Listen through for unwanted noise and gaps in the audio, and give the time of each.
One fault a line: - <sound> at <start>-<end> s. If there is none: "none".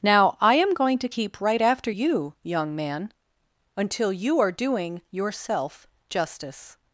none